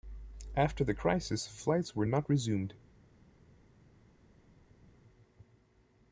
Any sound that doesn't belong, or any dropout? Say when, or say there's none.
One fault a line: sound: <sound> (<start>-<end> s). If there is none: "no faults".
no faults